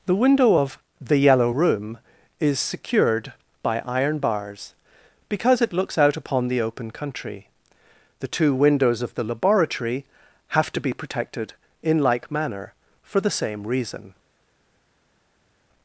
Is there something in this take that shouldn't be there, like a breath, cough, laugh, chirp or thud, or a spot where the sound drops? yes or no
no